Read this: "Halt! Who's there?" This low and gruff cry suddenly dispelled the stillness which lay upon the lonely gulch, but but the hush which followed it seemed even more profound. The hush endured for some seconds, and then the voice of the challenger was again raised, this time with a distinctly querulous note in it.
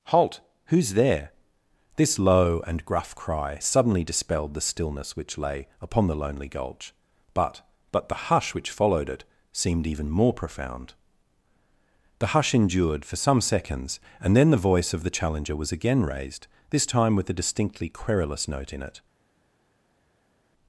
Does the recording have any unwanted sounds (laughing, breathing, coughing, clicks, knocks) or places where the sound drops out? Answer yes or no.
no